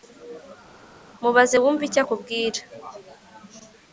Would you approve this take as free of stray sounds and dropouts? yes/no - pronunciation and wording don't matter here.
yes